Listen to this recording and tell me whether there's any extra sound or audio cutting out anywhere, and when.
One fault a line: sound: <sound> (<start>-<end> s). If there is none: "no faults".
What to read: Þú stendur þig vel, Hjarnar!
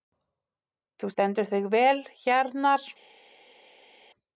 no faults